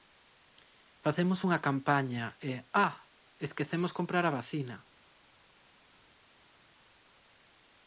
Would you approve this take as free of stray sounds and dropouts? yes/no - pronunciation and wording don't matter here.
yes